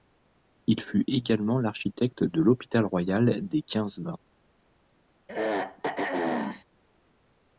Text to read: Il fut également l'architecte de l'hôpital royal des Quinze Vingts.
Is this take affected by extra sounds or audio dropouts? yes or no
yes